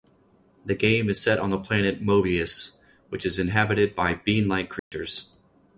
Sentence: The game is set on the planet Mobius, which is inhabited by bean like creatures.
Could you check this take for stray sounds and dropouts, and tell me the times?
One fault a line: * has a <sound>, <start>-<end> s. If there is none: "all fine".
* has a dropout, 4.8-4.9 s